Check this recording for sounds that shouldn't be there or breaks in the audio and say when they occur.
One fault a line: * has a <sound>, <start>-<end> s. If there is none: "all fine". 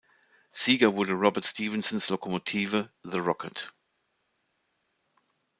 all fine